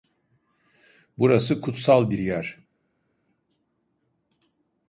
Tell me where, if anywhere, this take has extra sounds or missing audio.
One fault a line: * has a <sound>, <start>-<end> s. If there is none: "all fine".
all fine